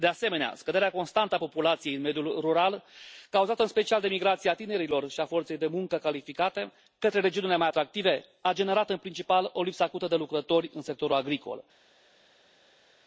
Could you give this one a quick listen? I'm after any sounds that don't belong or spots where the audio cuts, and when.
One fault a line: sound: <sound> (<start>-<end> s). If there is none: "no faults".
no faults